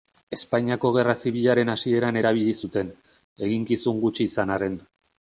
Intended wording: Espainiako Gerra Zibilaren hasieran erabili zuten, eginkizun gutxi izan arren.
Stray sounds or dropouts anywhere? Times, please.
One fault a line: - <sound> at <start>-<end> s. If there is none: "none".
none